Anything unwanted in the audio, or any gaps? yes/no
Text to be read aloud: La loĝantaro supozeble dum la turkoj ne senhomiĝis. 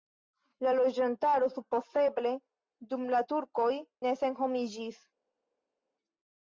no